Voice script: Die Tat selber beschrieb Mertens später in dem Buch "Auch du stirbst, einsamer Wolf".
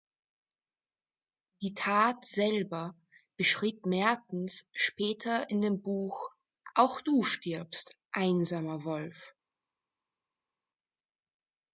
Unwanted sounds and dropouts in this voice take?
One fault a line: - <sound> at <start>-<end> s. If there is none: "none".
none